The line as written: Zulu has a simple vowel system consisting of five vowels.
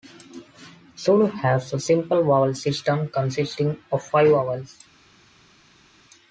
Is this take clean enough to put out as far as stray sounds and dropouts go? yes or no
yes